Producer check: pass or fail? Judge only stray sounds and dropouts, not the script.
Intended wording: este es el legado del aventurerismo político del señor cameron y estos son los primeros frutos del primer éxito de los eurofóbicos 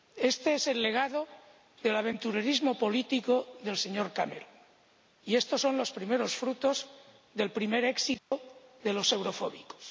fail